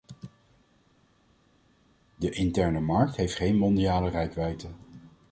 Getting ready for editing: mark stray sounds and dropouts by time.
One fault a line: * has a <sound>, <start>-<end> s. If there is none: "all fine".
all fine